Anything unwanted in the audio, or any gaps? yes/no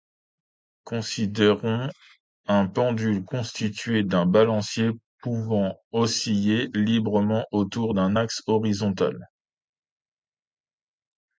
no